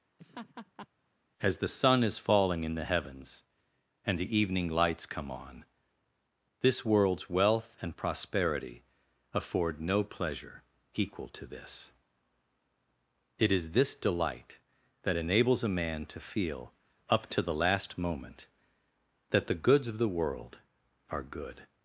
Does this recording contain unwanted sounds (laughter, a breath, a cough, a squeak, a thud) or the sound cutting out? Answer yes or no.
yes